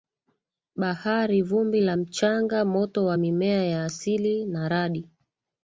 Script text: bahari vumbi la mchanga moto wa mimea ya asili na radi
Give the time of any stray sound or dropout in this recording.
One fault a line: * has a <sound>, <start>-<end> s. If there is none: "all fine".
all fine